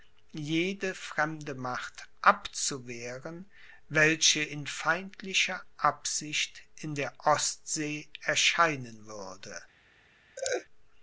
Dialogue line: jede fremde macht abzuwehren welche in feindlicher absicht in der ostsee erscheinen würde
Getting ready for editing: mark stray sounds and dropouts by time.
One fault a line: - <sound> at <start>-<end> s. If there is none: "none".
- laugh at 10.4-10.7 s